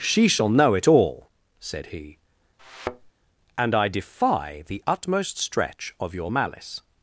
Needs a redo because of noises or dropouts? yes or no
yes